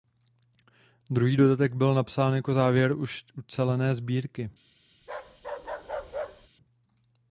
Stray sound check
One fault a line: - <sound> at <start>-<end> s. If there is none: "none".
- bark at 5.0-6.5 s